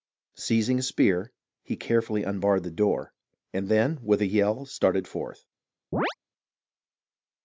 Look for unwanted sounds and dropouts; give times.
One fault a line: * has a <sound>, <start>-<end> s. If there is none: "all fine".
* has a chirp, 5.9-6.1 s